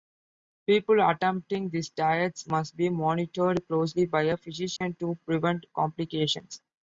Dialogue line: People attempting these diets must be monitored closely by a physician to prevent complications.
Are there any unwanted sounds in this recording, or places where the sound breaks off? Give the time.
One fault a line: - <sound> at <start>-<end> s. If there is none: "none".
- dropout at 4.8-4.8 s